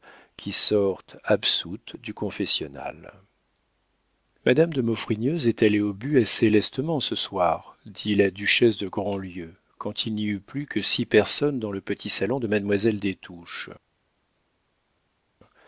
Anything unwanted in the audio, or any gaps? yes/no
no